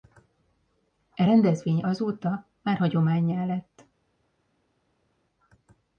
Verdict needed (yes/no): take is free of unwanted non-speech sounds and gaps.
yes